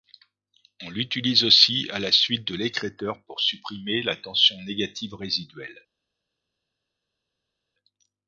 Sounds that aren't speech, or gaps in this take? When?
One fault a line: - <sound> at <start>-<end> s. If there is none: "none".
none